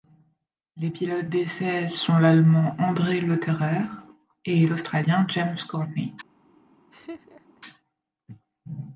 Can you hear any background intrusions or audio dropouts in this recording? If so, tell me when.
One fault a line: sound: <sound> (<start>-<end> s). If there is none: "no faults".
sound: laugh (6.9-7.6 s)